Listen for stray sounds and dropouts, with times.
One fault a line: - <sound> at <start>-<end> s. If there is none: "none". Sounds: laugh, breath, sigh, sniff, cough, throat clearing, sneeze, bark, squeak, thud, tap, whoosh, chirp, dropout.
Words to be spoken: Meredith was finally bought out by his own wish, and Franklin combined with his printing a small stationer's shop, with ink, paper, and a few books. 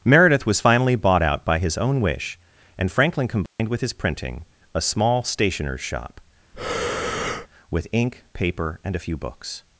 - dropout at 3.5-3.6 s
- breath at 6.5-7.5 s